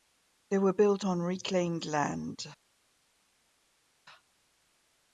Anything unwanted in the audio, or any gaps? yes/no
no